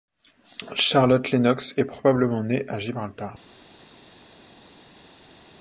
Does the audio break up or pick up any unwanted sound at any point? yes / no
no